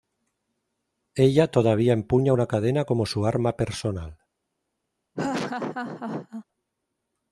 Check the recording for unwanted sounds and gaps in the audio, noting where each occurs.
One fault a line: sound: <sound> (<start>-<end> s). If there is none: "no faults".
sound: laugh (5.1-6.4 s)